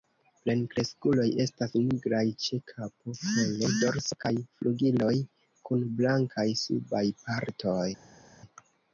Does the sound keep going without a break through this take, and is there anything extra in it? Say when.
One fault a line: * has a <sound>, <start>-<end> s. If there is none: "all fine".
all fine